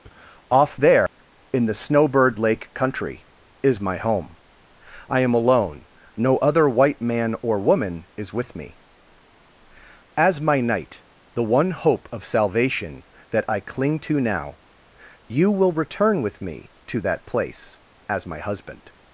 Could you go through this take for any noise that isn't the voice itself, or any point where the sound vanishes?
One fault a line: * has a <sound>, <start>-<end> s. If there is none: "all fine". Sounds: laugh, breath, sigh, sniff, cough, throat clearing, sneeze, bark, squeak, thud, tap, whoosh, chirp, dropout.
* has a dropout, 1.1-1.2 s